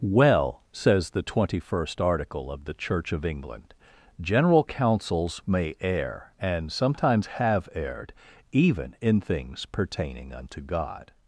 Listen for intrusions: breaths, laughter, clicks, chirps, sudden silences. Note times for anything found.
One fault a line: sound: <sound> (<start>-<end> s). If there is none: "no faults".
no faults